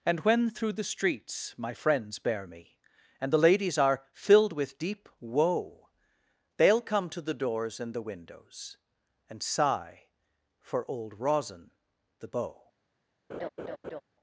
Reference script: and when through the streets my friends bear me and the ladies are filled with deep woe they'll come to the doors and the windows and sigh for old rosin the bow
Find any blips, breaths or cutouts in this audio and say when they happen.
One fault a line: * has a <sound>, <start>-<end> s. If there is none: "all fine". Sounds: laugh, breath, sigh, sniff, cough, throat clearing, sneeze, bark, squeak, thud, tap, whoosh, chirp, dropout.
* has a laugh, 13.3-14.0 s